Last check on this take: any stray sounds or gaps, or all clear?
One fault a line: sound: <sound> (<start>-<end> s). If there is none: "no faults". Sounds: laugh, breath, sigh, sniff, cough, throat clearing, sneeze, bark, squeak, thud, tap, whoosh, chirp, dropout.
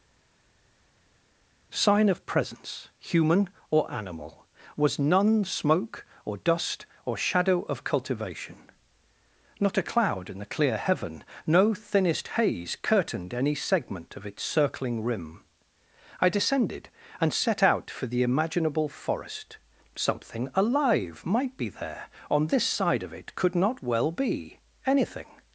no faults